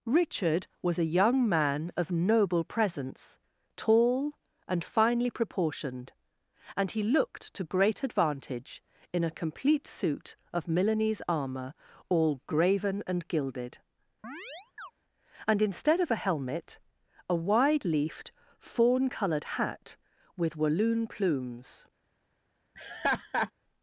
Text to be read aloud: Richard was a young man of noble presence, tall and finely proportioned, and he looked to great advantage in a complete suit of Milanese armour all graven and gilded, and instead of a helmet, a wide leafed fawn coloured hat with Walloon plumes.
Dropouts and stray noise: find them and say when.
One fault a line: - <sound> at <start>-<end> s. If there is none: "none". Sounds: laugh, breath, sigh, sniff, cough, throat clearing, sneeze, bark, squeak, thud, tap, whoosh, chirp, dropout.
- chirp at 14.2-14.9 s
- laugh at 22.7-23.5 s